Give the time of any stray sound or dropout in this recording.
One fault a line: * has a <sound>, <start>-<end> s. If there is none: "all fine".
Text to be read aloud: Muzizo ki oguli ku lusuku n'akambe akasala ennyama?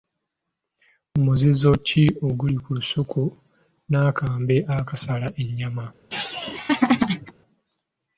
* has a laugh, 6.1-7.3 s